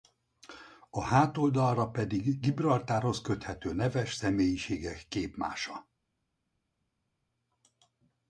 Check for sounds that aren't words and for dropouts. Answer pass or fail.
pass